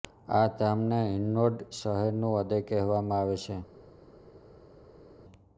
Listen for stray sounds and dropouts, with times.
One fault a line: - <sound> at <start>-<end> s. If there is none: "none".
none